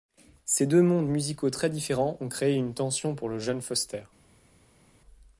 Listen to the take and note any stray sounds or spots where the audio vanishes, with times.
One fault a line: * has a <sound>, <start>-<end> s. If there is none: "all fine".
all fine